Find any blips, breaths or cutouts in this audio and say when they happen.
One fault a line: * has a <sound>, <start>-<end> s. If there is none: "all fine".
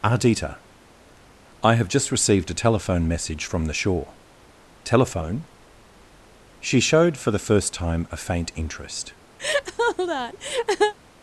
* has a laugh, 9.4-10.9 s